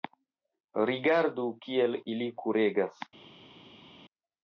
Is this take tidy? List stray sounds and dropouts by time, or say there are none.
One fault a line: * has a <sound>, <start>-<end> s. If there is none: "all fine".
all fine